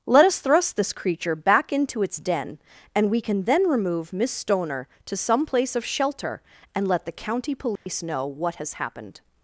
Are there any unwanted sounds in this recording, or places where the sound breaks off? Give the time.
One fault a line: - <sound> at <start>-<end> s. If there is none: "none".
- dropout at 7.8-7.9 s